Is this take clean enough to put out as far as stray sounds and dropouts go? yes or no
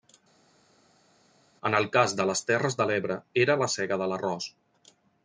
yes